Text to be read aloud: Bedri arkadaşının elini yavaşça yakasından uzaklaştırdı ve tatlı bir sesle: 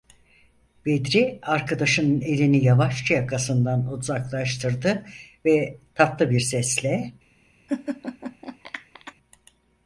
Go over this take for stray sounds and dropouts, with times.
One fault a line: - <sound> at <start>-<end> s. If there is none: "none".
- laugh at 7.7-9.1 s